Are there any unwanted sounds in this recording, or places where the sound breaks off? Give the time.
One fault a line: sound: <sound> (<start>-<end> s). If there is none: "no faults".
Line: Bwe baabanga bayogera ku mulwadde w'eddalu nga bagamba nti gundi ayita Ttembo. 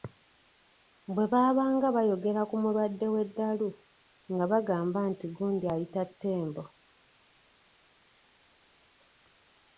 no faults